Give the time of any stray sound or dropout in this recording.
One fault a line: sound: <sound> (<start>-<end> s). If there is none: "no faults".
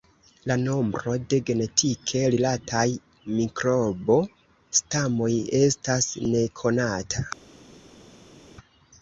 no faults